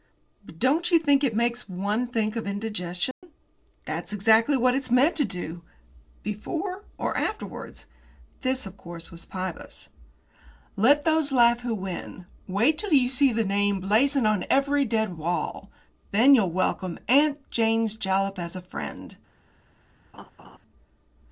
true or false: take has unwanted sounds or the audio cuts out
true